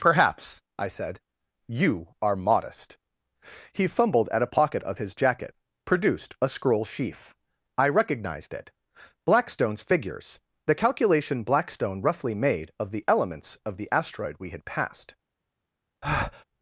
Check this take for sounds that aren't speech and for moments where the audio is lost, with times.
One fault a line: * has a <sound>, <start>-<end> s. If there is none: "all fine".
* has a breath, 16.0-16.4 s